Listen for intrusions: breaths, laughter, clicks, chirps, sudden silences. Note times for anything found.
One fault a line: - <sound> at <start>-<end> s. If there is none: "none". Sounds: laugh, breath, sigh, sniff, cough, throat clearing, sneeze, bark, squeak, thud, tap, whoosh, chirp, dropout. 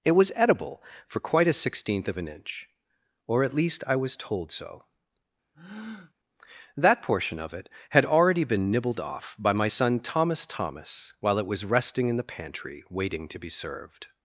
- breath at 5.5-6.1 s